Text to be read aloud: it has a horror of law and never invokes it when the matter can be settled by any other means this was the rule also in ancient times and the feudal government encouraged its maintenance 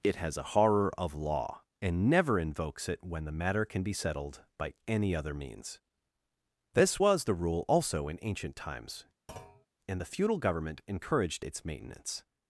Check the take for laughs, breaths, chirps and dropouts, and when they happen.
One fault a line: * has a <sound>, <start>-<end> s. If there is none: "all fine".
* has a thud, 9.3-9.7 s